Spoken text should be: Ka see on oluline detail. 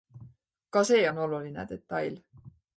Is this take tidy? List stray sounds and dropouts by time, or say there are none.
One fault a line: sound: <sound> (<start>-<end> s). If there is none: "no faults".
no faults